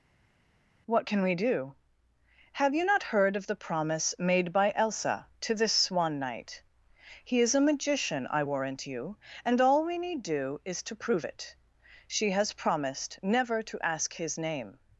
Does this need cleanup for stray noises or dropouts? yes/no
no